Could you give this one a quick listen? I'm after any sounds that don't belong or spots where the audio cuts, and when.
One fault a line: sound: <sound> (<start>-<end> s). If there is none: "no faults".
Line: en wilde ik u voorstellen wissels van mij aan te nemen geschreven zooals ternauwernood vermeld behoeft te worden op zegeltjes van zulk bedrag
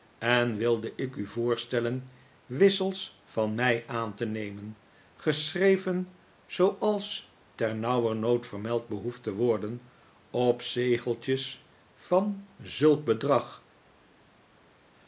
no faults